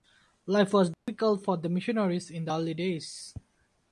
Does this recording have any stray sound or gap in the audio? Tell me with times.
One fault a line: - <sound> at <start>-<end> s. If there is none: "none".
- dropout at 0.9-1.1 s